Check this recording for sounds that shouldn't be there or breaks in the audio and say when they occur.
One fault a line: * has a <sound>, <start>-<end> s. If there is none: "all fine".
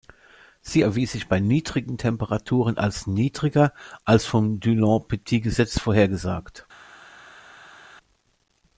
all fine